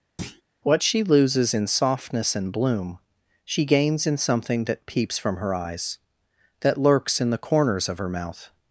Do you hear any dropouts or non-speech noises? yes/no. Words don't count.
yes